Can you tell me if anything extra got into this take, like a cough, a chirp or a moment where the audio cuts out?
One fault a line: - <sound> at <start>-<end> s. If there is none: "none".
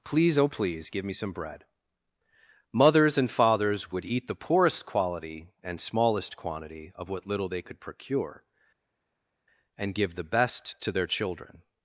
none